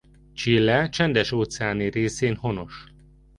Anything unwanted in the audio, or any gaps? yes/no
no